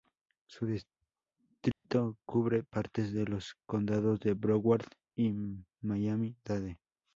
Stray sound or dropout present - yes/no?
yes